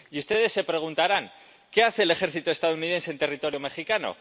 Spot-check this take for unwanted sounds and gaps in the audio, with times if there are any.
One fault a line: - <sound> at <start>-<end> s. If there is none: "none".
none